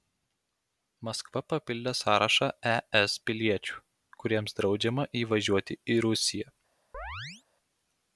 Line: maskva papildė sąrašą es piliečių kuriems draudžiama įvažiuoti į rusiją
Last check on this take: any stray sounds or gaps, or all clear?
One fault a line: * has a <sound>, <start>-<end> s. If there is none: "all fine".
* has a chirp, 6.9-7.4 s